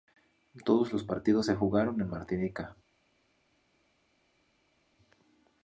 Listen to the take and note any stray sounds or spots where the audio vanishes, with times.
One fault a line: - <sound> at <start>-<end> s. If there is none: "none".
none